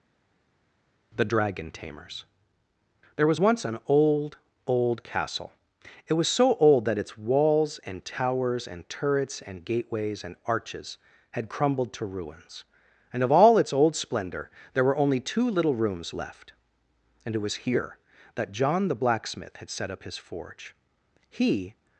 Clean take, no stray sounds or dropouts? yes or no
yes